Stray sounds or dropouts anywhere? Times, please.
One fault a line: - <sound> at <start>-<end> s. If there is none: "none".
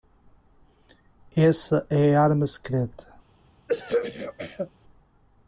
- throat clearing at 3.7-4.7 s